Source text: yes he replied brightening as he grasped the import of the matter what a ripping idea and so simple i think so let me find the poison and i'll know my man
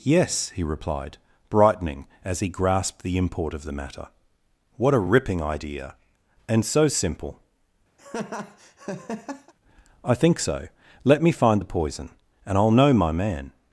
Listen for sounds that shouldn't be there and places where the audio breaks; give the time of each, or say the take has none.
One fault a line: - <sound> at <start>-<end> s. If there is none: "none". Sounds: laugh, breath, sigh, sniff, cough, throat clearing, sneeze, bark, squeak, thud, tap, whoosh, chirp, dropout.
- laugh at 8.0-9.5 s